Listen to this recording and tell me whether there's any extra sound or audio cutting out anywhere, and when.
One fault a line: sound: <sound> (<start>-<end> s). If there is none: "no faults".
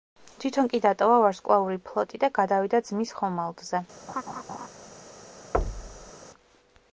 sound: laugh (4.1-4.7 s)
sound: thud (5.5-6.1 s)